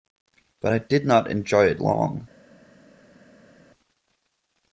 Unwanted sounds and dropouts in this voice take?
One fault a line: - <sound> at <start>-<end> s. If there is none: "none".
none